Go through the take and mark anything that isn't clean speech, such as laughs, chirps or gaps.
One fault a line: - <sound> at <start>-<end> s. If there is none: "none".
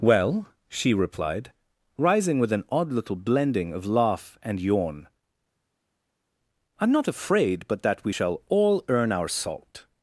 none